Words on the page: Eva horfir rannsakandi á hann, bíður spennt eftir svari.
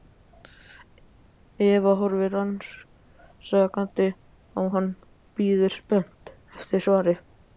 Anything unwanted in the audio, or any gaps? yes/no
no